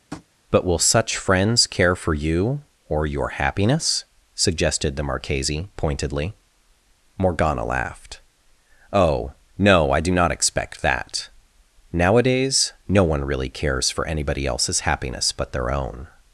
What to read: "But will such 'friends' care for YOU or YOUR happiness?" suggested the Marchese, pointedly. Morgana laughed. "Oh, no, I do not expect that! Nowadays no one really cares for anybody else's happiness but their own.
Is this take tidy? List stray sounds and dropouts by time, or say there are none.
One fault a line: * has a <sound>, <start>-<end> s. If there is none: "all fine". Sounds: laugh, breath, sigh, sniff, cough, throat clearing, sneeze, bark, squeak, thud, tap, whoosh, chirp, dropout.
* has a tap, 0.1-0.3 s